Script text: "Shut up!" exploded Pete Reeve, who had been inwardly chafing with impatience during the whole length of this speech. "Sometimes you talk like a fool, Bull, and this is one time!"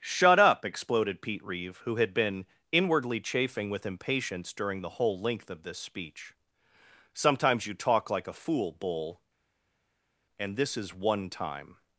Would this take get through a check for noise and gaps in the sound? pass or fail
pass